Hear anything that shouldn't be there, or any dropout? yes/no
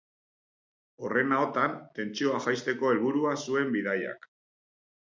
no